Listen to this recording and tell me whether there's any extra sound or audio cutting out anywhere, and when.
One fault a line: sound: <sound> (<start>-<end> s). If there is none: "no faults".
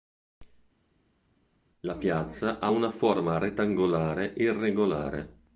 no faults